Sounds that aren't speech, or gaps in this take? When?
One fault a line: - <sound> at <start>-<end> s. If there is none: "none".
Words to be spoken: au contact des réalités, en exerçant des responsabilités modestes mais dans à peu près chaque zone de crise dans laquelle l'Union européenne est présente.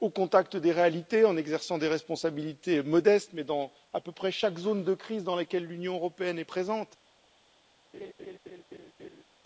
- laugh at 7.9-9.2 s